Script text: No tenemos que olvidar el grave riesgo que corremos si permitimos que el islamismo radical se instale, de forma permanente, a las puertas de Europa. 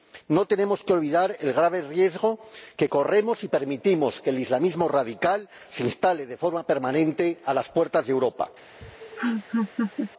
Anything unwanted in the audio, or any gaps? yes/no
yes